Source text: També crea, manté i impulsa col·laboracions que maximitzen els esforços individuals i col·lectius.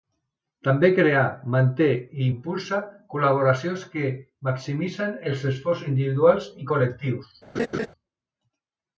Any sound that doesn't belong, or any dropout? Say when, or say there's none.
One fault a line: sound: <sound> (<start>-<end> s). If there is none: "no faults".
sound: laugh (7.6-7.9 s)